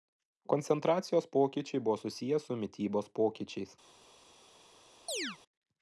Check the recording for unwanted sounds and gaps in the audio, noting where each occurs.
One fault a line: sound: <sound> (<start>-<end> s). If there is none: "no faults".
sound: chirp (5.1-5.4 s)